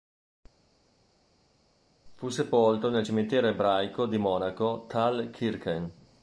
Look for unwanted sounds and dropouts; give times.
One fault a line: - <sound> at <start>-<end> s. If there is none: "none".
none